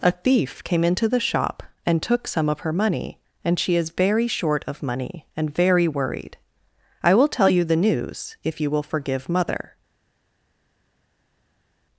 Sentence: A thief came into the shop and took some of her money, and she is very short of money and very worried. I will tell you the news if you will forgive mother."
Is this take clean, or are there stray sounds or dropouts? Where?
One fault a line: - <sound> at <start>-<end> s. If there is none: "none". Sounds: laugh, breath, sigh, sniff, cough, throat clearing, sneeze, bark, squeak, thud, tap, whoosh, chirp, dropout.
none